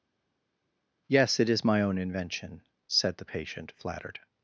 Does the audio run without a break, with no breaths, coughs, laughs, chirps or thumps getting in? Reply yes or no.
yes